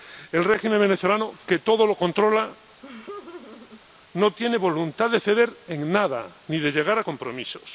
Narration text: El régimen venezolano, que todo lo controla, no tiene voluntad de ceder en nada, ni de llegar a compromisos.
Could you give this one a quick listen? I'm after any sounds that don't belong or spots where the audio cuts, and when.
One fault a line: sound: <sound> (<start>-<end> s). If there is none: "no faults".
sound: laugh (2.8-3.8 s)